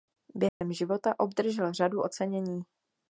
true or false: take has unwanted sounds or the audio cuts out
true